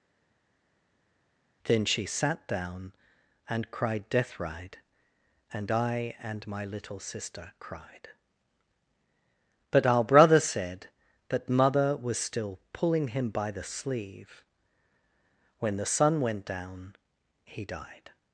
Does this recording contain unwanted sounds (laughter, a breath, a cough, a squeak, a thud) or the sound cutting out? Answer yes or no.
no